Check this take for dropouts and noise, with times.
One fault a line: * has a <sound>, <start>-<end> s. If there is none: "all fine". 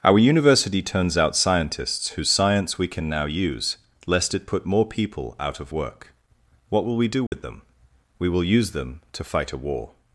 * has a dropout, 7.3-7.3 s